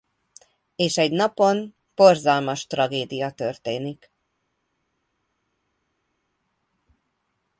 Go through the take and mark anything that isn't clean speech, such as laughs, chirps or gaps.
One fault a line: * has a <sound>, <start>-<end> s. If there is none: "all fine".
all fine